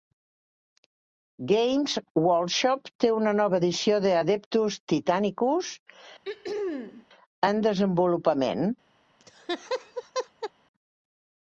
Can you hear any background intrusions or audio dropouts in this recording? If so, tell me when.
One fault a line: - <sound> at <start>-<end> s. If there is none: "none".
- throat clearing at 6.2-7.1 s
- laugh at 9.2-10.5 s